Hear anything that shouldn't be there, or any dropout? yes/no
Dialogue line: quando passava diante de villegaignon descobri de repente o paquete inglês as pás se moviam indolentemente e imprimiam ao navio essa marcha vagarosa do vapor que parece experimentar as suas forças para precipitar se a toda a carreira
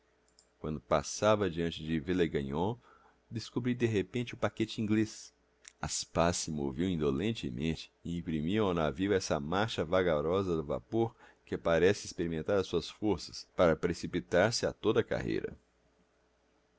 no